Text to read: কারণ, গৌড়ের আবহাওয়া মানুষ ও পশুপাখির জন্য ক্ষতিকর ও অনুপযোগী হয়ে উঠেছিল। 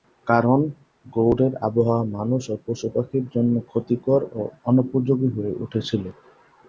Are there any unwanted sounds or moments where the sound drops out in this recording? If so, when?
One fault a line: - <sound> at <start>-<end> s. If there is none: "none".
none